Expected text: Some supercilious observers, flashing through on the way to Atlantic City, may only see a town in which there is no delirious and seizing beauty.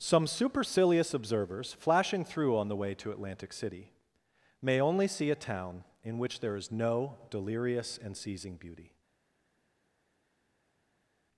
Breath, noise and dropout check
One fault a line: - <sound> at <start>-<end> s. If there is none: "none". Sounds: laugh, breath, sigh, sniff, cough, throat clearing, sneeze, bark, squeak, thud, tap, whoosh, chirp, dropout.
none